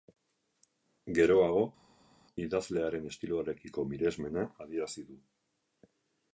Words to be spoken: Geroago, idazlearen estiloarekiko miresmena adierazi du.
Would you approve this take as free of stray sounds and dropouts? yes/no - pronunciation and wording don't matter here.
yes